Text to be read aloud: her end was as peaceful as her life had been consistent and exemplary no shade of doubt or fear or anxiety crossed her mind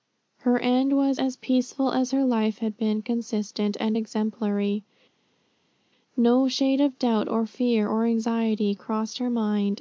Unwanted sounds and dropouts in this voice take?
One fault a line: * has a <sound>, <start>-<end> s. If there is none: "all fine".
all fine